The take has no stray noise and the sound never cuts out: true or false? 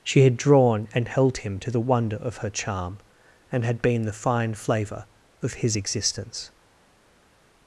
true